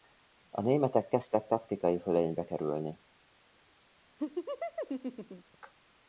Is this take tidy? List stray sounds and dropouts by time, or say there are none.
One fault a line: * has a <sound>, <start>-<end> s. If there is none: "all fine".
* has a laugh, 4.2-5.6 s